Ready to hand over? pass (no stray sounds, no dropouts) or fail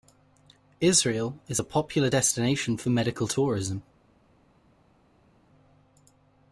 pass